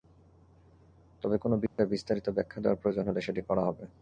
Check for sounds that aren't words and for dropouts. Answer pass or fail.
fail